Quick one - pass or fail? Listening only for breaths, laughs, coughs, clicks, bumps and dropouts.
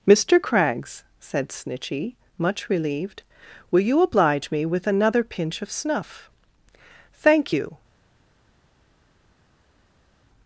pass